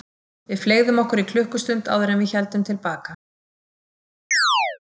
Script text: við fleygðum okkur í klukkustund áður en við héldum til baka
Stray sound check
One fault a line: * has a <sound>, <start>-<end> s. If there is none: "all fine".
* has a chirp, 4.3-4.8 s